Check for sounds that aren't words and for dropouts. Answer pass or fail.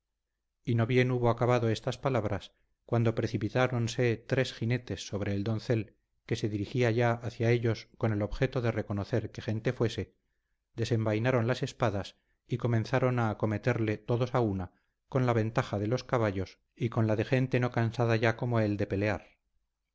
pass